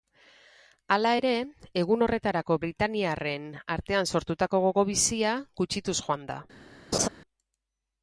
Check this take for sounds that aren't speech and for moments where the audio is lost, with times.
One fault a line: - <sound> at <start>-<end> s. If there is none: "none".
- laugh at 6.9-7.1 s